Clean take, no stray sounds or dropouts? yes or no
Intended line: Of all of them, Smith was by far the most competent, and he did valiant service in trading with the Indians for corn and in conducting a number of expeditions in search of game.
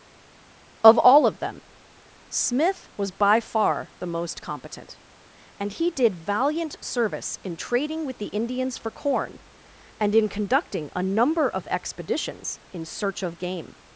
yes